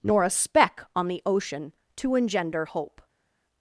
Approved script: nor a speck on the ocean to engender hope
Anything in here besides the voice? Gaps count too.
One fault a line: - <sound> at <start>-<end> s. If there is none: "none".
none